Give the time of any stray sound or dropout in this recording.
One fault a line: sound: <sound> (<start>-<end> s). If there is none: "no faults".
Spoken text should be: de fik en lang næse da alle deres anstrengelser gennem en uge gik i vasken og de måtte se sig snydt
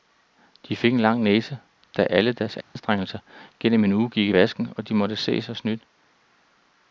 sound: dropout (2.6-2.8 s)